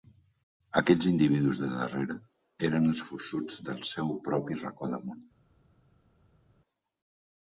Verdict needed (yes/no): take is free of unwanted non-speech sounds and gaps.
yes